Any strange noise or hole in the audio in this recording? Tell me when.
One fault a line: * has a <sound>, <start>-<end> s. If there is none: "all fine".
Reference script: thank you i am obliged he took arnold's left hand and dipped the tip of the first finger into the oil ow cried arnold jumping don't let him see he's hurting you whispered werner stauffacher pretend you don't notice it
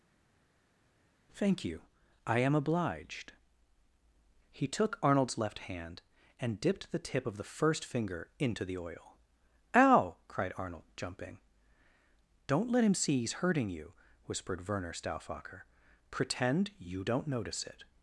all fine